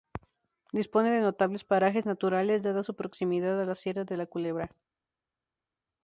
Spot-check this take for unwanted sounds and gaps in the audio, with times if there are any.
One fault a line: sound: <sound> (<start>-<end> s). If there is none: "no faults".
no faults